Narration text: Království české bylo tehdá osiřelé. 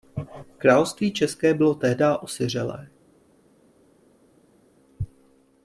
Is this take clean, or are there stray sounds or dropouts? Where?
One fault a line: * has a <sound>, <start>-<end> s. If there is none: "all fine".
all fine